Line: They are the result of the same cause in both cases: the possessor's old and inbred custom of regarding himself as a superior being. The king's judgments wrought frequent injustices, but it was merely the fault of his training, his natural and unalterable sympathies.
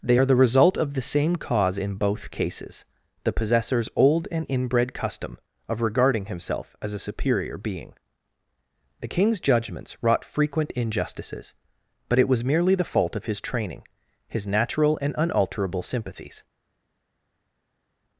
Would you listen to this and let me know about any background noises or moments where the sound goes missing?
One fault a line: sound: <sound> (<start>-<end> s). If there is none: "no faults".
no faults